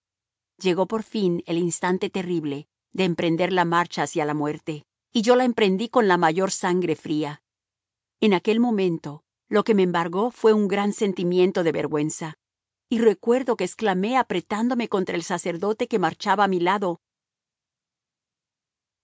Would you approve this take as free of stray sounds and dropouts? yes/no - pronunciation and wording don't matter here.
yes